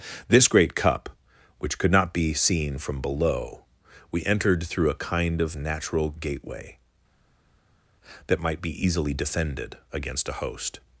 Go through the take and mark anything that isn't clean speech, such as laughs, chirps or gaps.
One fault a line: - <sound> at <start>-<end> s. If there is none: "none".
none